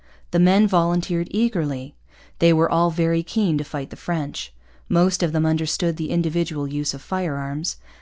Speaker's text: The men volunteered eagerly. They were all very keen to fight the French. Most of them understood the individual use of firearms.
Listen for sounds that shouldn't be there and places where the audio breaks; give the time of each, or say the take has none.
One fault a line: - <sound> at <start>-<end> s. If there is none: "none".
none